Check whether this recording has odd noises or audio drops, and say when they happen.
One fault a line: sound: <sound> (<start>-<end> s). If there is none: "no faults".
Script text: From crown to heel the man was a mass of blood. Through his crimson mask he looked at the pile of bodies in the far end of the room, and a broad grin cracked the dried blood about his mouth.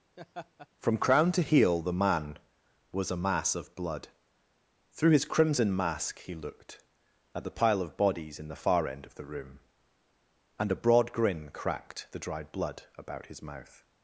sound: laugh (0.2-0.7 s)